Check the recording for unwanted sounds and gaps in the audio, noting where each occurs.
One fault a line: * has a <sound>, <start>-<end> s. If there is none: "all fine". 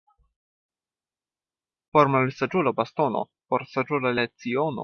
all fine